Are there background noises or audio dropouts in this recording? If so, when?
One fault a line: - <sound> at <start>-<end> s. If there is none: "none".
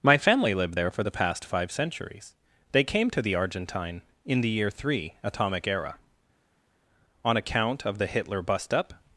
none